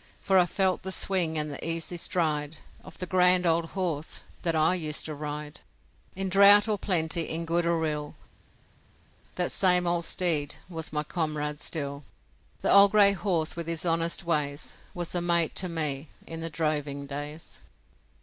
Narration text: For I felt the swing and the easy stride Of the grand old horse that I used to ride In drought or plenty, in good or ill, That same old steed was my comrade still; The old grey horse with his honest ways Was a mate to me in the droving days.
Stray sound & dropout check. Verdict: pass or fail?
pass